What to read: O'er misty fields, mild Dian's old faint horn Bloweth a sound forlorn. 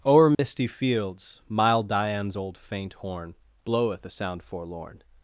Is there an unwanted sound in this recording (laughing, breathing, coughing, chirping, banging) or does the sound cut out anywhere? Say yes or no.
yes